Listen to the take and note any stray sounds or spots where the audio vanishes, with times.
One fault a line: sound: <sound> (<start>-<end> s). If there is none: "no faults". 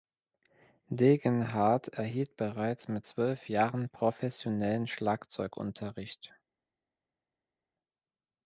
no faults